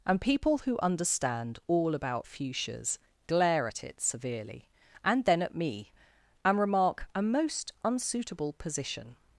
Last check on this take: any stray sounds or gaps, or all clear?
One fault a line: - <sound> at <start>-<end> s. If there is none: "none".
none